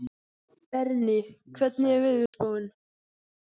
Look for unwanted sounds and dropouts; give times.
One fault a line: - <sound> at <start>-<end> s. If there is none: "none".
- dropout at 2.3-2.3 s